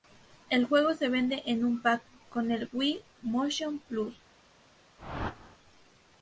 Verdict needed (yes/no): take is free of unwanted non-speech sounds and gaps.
no